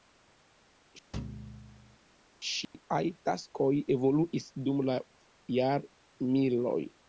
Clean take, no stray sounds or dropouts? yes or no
no